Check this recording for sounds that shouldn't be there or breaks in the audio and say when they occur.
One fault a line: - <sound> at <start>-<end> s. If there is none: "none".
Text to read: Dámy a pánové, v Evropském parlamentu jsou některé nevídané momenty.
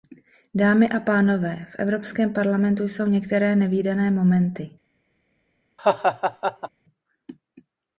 - laugh at 5.8-6.7 s